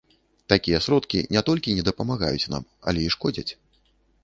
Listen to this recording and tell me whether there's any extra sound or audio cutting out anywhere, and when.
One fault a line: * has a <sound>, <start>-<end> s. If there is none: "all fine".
all fine